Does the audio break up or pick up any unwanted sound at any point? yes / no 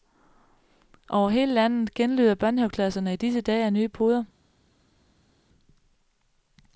no